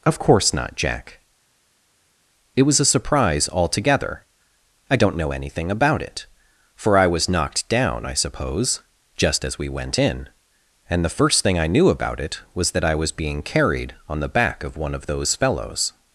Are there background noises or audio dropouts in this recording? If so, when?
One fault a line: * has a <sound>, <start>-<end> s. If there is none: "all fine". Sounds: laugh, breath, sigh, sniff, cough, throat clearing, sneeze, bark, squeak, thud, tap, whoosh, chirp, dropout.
all fine